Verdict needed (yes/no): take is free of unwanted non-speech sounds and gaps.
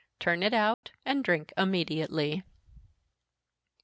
no